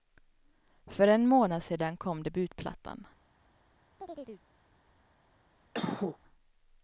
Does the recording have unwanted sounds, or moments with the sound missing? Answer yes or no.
yes